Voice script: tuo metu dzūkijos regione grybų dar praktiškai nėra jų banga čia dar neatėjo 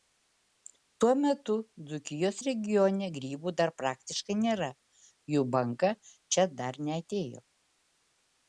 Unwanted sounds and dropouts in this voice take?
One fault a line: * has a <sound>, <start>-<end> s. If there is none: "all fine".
all fine